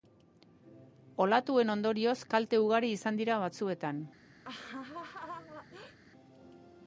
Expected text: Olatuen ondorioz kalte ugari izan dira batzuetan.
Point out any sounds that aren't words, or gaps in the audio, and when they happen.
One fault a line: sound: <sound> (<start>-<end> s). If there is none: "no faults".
sound: laugh (4.4-6.0 s)